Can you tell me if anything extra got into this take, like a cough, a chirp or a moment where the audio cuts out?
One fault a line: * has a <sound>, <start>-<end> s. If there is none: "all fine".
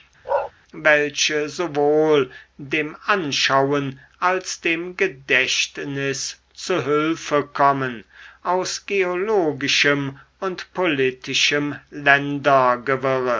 * has a bark, 0.2-0.5 s